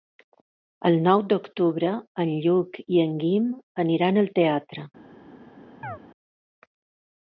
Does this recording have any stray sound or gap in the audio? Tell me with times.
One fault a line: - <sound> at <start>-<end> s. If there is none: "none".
- chirp at 5.8-6.0 s